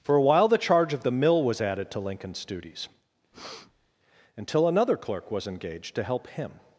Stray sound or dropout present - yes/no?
yes